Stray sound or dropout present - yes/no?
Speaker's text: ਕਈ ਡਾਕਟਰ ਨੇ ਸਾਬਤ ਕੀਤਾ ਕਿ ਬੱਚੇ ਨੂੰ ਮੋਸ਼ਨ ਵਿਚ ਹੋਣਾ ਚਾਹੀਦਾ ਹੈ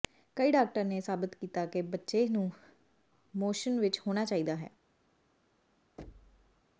yes